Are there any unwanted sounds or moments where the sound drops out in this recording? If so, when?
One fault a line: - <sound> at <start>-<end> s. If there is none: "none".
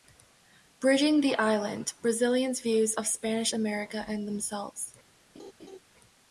- laugh at 5.3-5.8 s